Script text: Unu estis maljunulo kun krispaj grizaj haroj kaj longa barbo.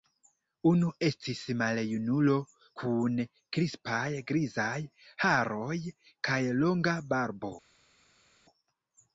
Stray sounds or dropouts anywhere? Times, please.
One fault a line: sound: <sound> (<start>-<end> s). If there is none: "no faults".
no faults